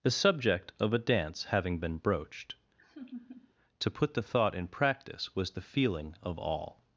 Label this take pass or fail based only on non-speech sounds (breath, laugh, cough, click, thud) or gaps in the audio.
fail